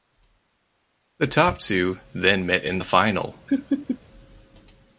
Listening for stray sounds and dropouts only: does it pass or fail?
fail